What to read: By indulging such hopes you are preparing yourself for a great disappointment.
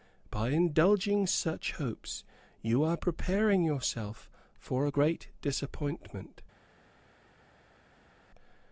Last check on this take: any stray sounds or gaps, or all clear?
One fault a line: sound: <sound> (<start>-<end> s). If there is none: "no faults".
no faults